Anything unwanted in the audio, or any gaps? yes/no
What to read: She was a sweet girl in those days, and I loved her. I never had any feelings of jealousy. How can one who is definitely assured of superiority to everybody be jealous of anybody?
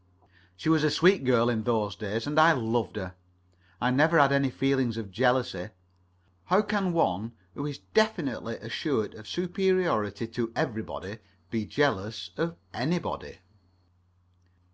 no